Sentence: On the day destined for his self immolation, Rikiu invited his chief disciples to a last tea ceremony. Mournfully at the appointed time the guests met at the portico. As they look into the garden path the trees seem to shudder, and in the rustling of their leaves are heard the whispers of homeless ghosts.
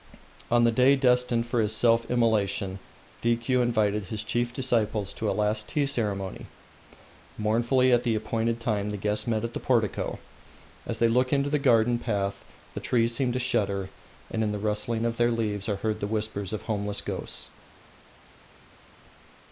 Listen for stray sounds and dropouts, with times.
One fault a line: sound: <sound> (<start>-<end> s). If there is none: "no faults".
no faults